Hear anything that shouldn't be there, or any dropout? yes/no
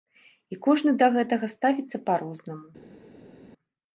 no